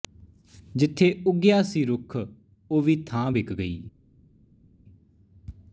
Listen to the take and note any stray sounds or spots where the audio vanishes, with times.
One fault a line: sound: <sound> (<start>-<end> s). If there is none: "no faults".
no faults